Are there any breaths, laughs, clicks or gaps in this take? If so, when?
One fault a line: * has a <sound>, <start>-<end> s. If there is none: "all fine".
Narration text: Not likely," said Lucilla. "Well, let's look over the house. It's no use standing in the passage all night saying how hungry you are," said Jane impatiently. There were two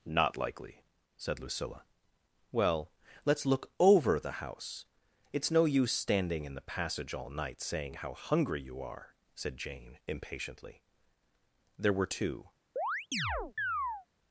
* has a chirp, 12.8-14.1 s